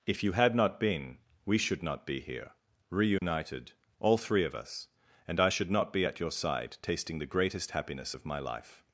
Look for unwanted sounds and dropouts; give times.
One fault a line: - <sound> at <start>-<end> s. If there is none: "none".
- dropout at 3.2-3.2 s